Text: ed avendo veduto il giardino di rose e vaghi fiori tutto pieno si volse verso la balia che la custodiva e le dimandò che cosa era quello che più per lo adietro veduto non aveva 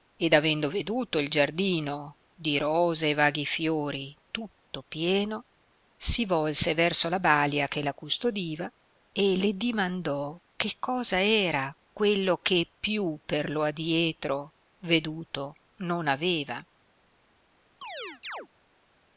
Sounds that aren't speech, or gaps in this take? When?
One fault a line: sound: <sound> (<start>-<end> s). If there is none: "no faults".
sound: chirp (17.8-18.5 s)